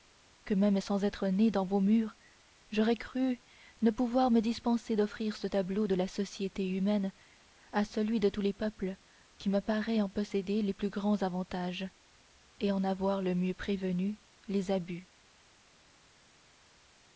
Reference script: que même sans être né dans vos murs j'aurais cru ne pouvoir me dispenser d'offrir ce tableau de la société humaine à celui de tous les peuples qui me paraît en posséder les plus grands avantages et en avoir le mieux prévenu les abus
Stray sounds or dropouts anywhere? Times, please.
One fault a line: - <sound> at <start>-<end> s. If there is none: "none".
none